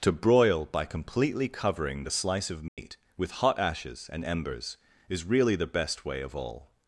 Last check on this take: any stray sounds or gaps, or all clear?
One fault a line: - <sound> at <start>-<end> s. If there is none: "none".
- dropout at 2.7-2.8 s